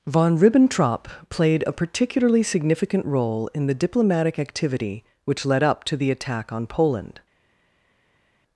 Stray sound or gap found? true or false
false